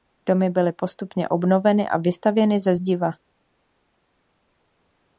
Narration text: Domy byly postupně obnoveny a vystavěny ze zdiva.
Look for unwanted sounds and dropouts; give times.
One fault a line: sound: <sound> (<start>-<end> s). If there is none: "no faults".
no faults